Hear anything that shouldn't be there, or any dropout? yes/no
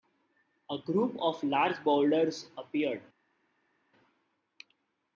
no